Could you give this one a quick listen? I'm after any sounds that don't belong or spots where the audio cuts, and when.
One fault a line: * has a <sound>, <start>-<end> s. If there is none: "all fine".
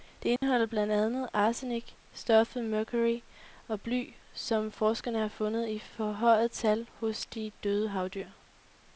* has a dropout, 0.4-0.4 s